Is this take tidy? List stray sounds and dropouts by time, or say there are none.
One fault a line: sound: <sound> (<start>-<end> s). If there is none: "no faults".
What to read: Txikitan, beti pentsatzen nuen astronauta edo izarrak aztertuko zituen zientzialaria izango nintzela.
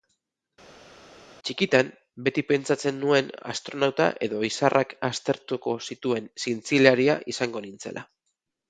no faults